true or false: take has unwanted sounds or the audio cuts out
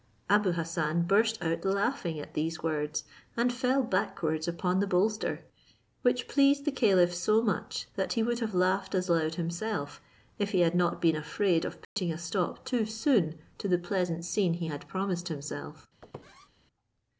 true